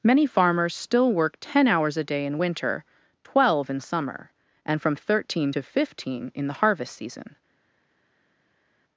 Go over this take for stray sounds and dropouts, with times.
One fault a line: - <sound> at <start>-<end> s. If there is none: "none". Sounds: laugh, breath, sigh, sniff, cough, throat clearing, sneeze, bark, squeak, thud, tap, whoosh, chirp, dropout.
none